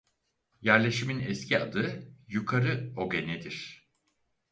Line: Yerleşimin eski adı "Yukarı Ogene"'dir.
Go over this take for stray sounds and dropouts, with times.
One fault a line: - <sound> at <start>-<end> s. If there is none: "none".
none